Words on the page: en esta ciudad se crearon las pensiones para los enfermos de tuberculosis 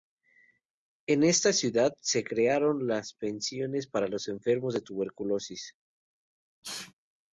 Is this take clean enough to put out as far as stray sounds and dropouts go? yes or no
no